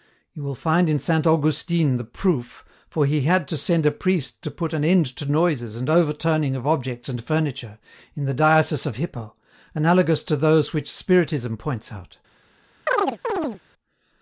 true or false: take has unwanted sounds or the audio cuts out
true